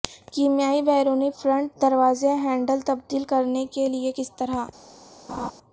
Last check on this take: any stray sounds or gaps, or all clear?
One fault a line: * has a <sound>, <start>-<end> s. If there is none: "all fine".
* has a laugh, 5.3-5.5 s